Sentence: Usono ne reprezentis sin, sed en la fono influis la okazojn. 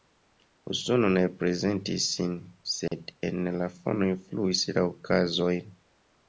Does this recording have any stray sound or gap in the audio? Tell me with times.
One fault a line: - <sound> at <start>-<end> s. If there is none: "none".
- dropout at 2.9-2.9 s